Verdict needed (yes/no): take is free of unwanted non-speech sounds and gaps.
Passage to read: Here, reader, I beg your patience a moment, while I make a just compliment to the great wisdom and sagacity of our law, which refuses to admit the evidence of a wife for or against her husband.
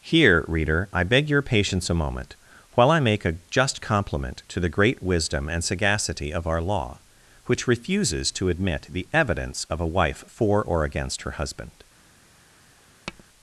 no